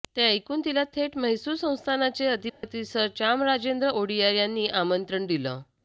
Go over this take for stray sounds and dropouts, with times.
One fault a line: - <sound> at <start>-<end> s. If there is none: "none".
- dropout at 2.5-2.6 s